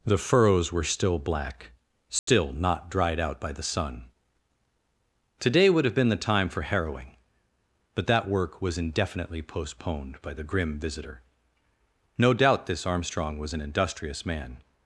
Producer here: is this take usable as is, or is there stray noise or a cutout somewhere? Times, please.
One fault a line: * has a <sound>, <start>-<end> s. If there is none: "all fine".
* has a dropout, 2.2-2.3 s